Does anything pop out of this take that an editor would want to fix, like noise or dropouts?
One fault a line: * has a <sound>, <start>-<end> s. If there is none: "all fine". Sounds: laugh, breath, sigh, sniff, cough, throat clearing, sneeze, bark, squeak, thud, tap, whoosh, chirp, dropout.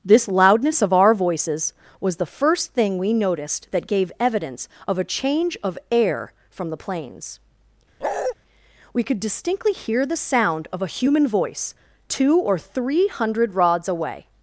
* has a bark, 8.0-8.3 s